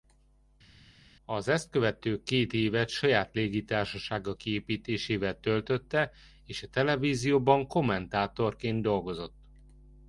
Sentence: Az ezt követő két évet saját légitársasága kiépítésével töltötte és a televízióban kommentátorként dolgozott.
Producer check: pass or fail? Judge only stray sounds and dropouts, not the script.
pass